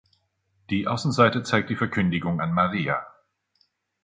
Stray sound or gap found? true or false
false